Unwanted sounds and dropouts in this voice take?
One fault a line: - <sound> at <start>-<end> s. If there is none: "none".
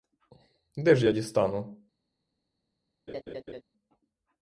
- laugh at 3.1-3.6 s